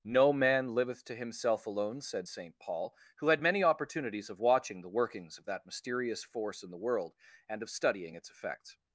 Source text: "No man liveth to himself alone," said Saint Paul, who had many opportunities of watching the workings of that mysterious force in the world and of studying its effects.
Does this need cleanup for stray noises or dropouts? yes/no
no